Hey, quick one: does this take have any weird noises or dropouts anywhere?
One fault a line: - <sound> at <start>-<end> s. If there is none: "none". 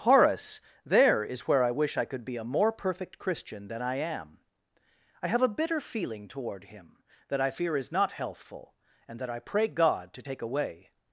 none